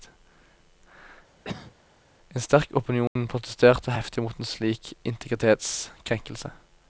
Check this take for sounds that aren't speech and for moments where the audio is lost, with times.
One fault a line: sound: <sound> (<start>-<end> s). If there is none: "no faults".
sound: cough (1.4-1.7 s)
sound: dropout (3.1-3.2 s)